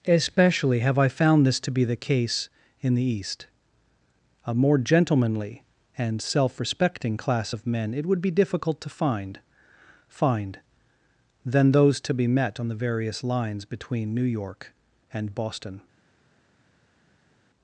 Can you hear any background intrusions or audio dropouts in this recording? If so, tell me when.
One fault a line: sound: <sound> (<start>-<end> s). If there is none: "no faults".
no faults